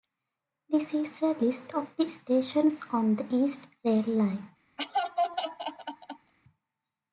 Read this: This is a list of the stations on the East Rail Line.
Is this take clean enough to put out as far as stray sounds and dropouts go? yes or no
no